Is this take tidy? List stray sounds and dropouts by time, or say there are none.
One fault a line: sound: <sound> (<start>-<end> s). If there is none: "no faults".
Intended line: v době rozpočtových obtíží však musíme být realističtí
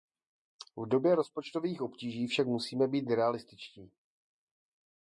no faults